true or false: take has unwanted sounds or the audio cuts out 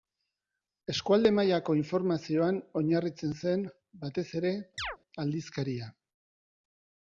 true